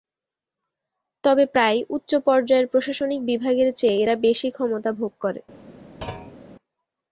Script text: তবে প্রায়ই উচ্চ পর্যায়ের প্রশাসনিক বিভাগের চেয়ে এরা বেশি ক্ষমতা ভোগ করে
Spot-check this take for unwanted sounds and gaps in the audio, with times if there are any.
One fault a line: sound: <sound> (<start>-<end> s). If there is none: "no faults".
sound: thud (6.0-6.4 s)